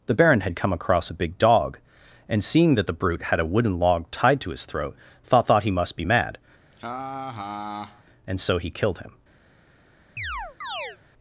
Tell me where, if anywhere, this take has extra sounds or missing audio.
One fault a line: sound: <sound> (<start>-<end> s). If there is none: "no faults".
sound: laugh (6.7-8.0 s)
sound: chirp (10.2-11.0 s)